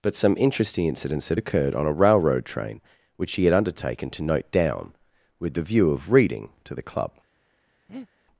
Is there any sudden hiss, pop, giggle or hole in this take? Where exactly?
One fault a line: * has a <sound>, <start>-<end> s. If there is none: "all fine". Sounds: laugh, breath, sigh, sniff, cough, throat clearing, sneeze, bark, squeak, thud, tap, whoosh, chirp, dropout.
* has a breath, 7.9-8.1 s